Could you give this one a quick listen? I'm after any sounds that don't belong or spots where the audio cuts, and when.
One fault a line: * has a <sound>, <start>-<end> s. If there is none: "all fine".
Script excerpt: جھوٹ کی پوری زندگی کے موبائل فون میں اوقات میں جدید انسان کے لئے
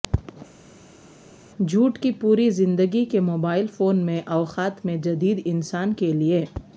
all fine